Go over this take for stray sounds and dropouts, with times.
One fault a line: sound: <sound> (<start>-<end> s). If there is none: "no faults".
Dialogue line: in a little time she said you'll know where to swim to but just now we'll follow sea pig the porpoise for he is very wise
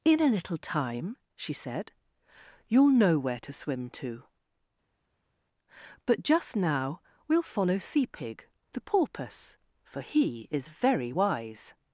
no faults